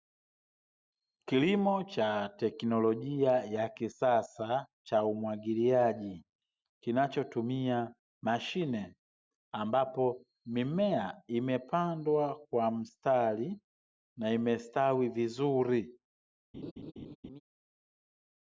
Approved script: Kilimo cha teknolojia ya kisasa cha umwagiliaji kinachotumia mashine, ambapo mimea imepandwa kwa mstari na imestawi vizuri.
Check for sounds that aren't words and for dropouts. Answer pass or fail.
fail